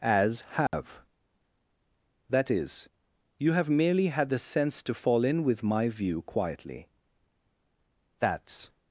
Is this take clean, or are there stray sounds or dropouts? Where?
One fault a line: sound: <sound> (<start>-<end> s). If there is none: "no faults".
sound: dropout (0.7-0.7 s)